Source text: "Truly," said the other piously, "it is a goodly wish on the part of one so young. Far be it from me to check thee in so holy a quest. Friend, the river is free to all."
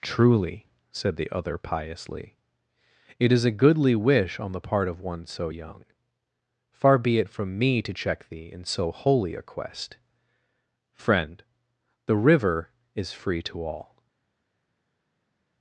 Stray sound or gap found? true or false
false